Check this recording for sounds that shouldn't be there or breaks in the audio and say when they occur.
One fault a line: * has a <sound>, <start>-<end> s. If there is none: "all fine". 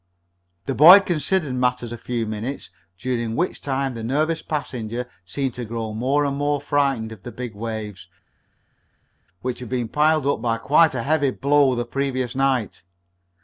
all fine